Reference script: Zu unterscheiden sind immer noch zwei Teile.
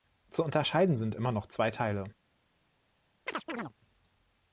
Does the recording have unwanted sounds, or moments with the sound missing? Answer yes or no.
yes